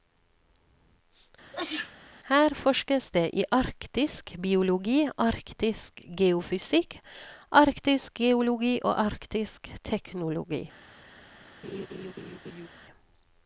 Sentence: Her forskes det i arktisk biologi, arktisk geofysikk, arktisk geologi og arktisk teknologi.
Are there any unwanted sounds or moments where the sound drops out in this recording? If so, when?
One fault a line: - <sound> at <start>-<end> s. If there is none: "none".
- sneeze at 1.5-2.0 s
- laugh at 11.6-12.7 s